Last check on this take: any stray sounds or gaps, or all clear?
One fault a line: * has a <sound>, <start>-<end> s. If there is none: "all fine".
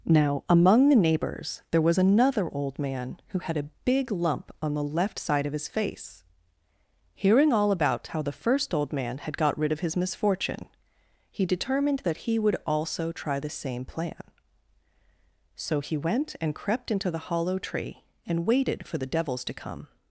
all fine